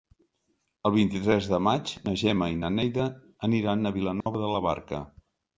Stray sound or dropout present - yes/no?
yes